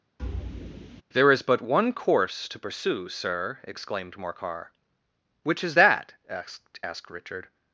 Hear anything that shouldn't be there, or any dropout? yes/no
yes